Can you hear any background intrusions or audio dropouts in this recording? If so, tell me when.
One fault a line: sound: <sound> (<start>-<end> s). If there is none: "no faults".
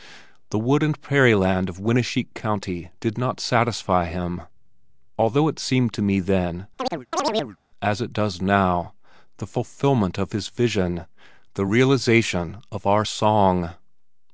sound: chirp (6.8-7.6 s)